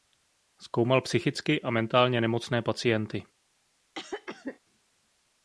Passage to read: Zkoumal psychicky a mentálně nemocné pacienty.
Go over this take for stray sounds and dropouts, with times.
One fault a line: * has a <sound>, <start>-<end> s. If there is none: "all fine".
* has a cough, 3.9-4.6 s